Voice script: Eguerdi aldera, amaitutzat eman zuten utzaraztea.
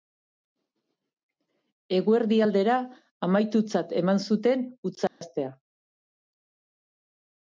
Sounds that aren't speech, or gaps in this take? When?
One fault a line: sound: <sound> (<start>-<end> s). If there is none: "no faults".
sound: dropout (5.1-5.2 s)